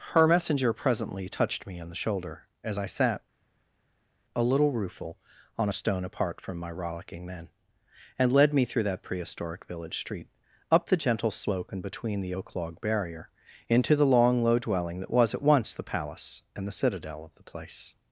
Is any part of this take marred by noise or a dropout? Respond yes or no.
no